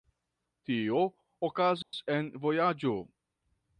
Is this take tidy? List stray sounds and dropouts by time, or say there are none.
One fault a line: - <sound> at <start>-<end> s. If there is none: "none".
- dropout at 1.8-1.9 s